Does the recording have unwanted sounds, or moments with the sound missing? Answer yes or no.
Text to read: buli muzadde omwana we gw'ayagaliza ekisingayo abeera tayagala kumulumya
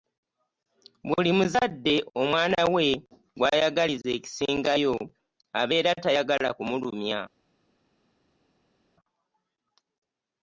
no